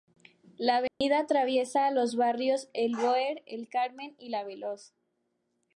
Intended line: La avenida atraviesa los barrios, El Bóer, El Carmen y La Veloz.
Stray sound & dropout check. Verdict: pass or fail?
fail